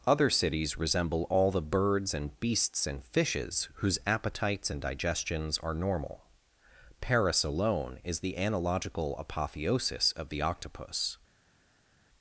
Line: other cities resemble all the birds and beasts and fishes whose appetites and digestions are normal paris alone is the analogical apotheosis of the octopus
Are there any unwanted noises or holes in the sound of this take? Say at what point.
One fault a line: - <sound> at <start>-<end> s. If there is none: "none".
none